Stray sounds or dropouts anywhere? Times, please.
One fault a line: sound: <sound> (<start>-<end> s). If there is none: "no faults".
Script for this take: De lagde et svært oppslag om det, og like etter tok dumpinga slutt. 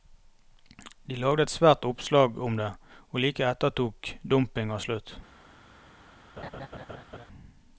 sound: laugh (6.4-7.3 s)